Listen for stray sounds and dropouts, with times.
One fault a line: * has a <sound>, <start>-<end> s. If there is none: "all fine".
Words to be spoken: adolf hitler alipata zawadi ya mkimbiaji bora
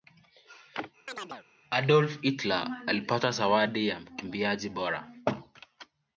* has a chirp, 1.1-1.5 s